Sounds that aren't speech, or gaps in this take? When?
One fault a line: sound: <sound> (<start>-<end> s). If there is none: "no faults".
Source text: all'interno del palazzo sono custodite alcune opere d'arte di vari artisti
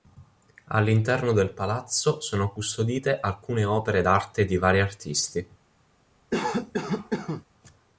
sound: cough (6.3-7.5 s)